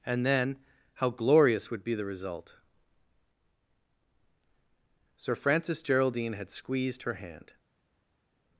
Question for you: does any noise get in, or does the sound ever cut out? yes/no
no